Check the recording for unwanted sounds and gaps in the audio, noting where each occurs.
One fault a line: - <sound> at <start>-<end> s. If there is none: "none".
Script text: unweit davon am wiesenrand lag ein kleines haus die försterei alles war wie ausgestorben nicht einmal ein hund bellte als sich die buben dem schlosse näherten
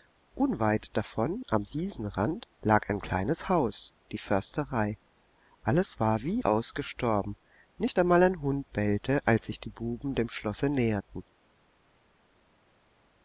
none